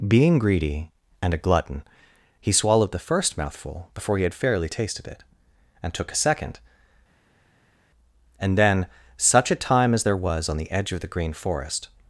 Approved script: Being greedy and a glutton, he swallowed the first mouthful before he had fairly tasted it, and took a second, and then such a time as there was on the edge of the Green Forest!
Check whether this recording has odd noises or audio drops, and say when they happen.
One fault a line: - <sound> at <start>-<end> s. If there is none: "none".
none